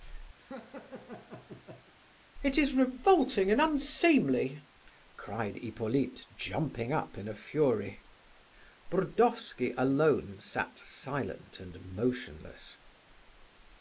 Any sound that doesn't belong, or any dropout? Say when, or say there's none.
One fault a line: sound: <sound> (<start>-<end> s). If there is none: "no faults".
sound: laugh (0.4-1.9 s)